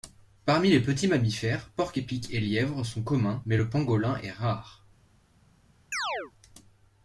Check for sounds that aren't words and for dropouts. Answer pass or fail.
fail